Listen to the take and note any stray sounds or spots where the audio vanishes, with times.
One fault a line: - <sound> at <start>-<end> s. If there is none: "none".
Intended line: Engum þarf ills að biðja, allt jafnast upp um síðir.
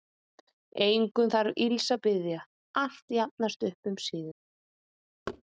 - thud at 5.3-5.4 s